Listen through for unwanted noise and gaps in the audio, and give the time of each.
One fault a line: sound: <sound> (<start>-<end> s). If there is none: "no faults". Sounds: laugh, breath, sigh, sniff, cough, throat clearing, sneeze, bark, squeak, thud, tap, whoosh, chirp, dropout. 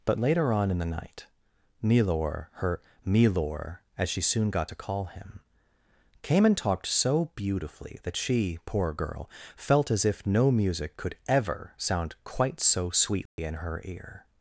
sound: dropout (13.3-13.4 s)